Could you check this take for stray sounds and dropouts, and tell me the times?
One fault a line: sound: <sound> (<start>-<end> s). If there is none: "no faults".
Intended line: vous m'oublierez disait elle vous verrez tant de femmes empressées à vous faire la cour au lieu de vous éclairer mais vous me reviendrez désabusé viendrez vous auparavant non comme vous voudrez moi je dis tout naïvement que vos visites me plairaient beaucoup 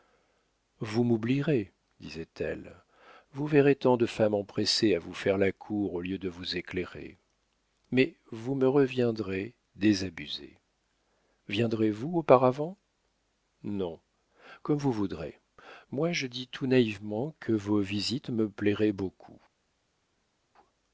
no faults